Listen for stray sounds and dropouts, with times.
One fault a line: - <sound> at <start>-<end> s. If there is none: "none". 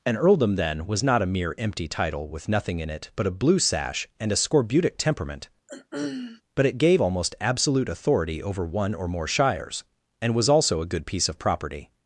- throat clearing at 5.7-6.4 s